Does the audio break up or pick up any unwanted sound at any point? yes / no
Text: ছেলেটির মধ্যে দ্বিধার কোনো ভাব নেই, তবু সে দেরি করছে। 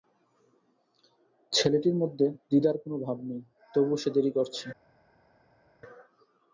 no